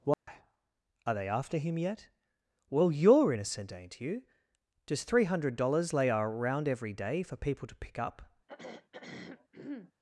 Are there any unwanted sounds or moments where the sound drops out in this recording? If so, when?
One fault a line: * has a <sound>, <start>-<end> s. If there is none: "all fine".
* has a dropout, 0.1-0.3 s
* has a throat clearing, 8.5-9.9 s